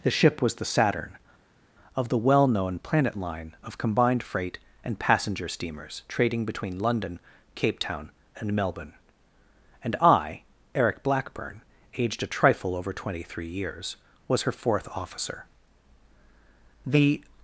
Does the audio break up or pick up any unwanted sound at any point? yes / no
no